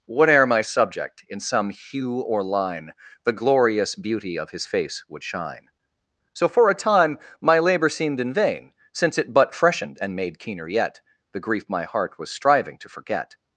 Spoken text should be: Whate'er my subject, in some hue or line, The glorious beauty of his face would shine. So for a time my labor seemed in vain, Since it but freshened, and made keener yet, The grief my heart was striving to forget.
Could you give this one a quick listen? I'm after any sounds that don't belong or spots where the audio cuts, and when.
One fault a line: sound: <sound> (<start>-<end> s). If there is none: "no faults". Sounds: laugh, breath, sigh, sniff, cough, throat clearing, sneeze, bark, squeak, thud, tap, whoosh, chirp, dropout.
no faults